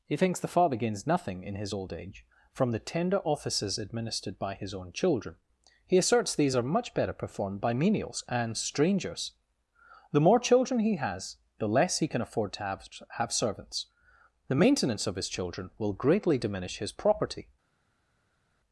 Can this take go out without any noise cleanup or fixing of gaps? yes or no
yes